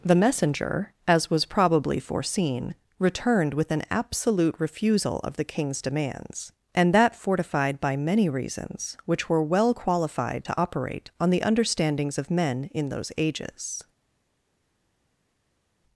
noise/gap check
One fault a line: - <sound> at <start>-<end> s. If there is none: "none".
none